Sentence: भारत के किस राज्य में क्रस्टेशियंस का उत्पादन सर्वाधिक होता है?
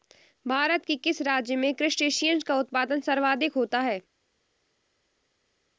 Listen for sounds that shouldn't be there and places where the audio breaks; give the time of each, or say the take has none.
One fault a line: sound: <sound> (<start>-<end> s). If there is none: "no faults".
no faults